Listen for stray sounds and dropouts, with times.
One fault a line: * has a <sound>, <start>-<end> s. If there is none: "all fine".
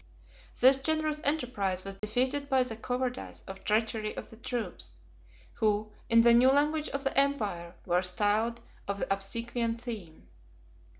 * has a dropout, 2.0-2.0 s